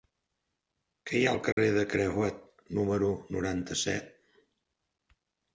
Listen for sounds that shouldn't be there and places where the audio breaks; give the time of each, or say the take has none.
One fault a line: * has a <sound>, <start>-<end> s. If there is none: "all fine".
* has a dropout, 1.5-1.6 s